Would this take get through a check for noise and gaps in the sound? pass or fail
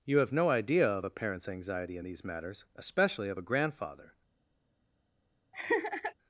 fail